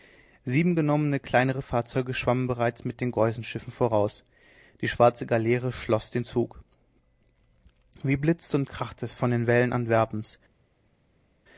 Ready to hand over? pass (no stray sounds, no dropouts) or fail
pass